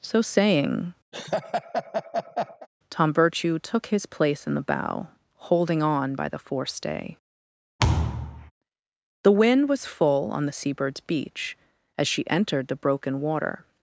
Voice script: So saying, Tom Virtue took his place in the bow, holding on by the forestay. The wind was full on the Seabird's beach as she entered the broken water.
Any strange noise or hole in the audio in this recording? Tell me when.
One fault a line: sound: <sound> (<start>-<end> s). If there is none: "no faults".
sound: laugh (1.1-2.7 s)
sound: thud (7.8-8.5 s)